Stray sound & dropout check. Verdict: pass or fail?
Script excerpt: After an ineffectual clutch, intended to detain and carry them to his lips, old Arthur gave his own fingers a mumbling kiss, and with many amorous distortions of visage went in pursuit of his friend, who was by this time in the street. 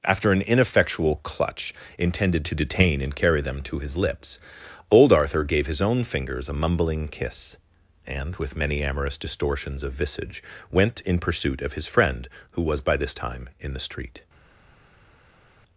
pass